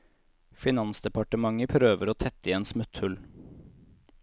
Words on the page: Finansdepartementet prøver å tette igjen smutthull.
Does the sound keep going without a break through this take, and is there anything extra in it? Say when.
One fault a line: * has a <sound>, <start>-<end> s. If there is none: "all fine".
all fine